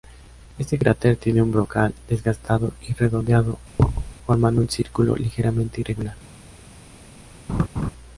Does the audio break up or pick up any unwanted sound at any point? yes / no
yes